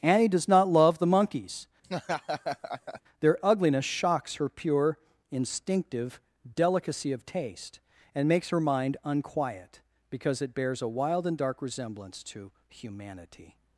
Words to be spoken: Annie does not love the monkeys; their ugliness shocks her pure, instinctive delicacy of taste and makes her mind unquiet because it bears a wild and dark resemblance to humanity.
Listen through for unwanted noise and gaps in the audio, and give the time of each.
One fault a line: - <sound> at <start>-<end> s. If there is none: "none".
- laugh at 1.8-3.0 s